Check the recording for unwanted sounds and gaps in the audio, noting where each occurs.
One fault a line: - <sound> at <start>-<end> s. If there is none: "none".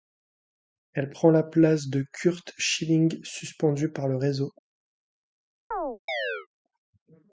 - chirp at 5.7-6.5 s